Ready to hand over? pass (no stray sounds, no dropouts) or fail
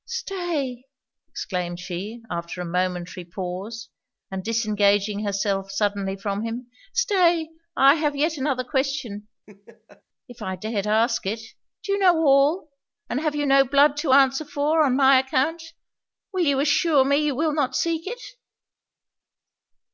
fail